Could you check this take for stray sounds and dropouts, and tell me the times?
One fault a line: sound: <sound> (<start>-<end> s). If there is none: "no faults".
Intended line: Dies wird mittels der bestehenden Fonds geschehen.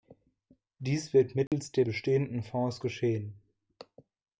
sound: dropout (1.5-1.5 s)